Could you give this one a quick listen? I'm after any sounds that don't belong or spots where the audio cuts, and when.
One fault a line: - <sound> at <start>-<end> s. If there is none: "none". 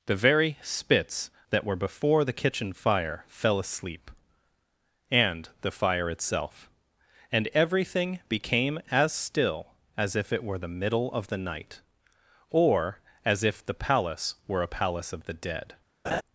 - laugh at 16.0-16.2 s